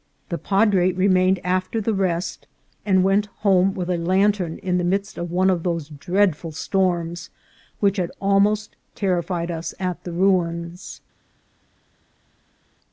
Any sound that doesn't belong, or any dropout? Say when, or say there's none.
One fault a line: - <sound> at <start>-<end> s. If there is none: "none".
none